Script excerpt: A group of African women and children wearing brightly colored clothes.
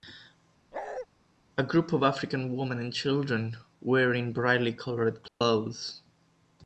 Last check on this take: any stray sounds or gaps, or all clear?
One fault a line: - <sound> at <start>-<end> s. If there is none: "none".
- bark at 0.7-1.1 s
- dropout at 5.3-5.4 s